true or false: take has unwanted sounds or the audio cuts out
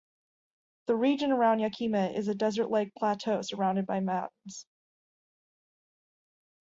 false